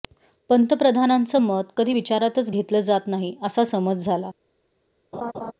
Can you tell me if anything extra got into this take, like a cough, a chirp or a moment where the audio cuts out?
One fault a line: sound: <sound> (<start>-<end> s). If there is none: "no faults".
sound: laugh (5.1-5.5 s)